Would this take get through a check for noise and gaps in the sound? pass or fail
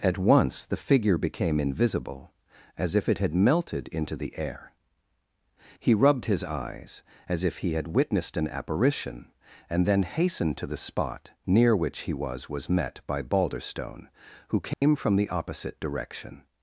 fail